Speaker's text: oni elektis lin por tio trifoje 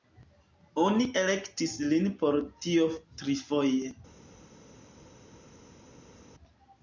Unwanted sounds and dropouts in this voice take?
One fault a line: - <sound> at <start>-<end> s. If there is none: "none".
none